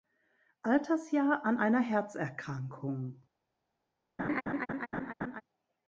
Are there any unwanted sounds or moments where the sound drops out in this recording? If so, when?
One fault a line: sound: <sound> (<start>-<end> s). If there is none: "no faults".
sound: laugh (4.2-5.4 s)